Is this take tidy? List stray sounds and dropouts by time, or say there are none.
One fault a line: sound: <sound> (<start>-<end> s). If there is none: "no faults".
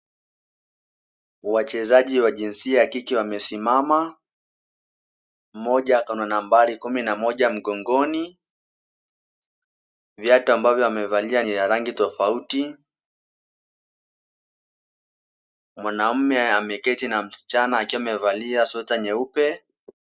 no faults